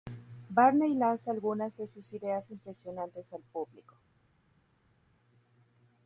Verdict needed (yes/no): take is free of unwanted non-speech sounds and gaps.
yes